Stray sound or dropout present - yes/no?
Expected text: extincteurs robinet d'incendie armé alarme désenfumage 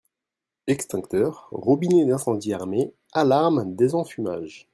no